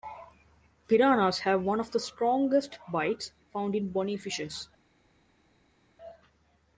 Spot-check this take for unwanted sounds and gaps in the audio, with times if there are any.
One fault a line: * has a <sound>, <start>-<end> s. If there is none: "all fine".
all fine